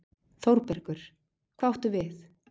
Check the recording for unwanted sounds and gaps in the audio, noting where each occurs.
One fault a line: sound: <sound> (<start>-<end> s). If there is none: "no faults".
no faults